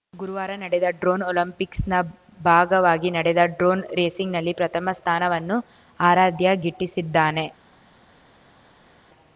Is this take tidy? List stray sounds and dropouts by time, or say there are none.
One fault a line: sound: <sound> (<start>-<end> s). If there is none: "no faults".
no faults